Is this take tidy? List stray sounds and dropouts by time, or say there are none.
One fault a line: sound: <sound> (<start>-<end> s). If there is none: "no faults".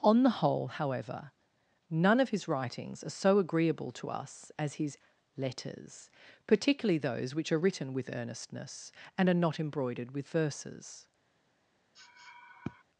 sound: sniff (12.0-12.8 s)